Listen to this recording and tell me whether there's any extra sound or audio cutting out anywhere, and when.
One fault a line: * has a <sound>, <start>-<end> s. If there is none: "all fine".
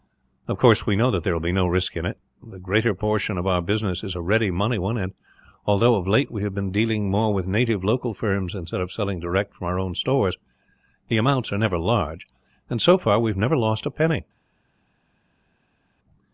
all fine